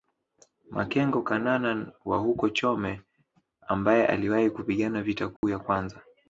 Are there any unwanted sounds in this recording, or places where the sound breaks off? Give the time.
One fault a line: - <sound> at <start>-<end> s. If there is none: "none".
- dropout at 5.4-5.4 s